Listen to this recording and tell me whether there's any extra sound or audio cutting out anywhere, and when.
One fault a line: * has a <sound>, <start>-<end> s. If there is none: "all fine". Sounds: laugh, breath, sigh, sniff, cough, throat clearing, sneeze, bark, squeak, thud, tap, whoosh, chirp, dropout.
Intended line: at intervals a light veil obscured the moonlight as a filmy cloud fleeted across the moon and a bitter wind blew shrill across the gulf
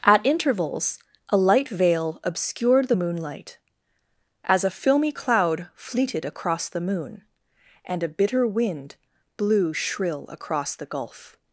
all fine